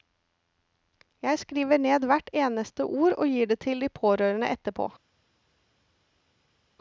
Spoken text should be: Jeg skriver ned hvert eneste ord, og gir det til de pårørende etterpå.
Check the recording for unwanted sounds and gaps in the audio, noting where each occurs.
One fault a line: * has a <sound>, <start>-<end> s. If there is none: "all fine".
all fine